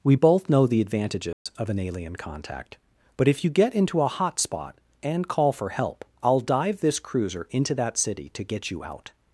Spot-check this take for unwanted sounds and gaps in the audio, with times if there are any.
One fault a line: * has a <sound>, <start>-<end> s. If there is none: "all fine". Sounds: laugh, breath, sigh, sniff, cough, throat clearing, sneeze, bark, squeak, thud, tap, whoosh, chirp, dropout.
* has a dropout, 1.3-1.5 s